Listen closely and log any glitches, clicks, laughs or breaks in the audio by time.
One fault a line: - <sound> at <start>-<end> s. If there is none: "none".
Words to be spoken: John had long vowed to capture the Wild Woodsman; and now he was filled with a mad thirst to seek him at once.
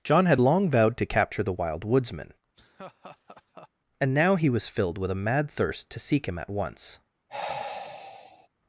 - laugh at 2.5-3.7 s
- sigh at 7.3-8.5 s